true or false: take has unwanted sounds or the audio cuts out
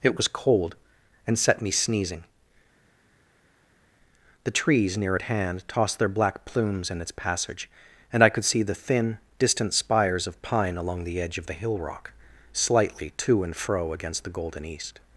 false